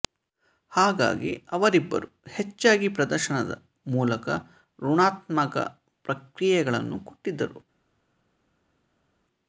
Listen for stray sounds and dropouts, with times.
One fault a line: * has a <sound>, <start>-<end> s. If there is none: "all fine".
all fine